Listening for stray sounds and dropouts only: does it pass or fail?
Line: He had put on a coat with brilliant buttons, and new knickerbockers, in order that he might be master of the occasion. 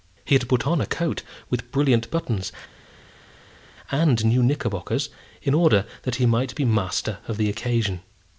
pass